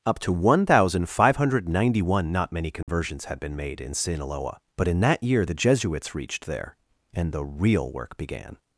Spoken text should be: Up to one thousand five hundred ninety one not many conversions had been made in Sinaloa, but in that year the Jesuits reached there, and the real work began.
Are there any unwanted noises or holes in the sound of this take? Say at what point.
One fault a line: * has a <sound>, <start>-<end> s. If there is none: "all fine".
* has a dropout, 2.8-2.9 s